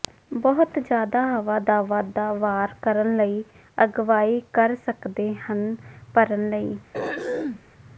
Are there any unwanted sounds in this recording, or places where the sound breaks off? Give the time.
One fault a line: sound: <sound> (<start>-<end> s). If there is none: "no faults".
sound: throat clearing (6.9-7.6 s)